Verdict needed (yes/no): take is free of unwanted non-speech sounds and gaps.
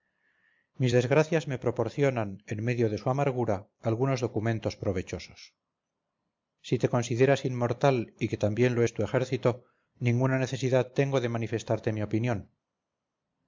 yes